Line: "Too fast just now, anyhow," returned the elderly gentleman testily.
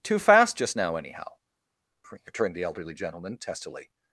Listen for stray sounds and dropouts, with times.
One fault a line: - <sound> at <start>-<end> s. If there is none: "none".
none